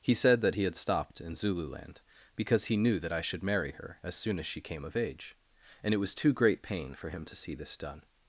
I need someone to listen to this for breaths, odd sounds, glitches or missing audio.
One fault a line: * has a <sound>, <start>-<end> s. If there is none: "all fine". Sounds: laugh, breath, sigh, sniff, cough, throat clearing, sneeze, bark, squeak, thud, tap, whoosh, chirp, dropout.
all fine